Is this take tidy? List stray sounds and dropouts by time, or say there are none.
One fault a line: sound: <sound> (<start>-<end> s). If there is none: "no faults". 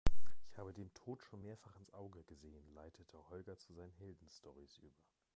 no faults